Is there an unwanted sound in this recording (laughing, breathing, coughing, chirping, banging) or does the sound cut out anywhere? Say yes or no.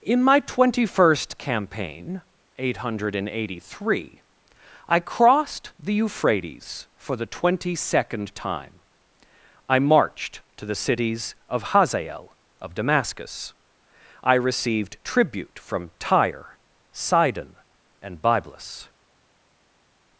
no